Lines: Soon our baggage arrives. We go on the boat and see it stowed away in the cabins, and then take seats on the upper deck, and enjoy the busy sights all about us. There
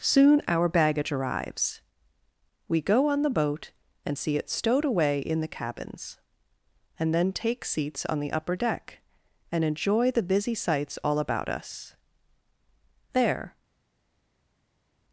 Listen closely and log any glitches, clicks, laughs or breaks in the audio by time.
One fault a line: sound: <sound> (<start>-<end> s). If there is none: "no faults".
no faults